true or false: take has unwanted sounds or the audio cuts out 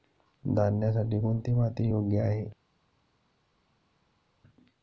false